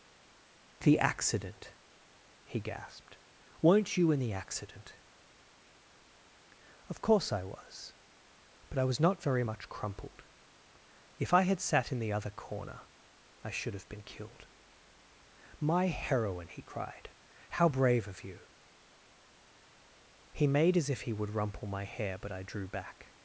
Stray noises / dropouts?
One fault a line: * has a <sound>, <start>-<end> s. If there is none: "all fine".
all fine